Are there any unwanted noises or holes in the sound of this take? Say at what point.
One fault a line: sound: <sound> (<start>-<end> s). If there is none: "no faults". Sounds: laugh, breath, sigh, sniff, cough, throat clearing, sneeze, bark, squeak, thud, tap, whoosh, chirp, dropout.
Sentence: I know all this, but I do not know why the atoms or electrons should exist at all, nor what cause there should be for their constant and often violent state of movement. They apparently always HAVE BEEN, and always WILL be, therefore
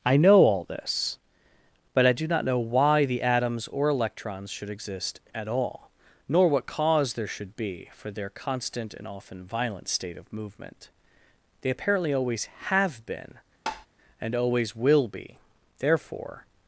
sound: tap (13.7-13.9 s)